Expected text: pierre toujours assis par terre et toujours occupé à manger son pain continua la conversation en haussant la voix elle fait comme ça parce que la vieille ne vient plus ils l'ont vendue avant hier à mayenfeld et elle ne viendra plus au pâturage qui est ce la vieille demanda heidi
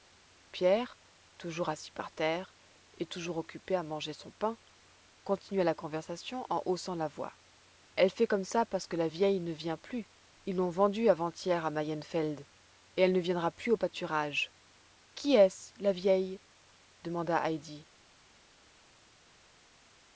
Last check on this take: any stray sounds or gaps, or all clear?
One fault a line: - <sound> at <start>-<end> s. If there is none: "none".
none